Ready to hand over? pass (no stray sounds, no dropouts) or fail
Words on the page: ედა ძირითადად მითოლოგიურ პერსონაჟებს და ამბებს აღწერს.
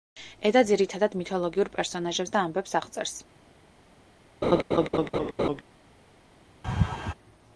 fail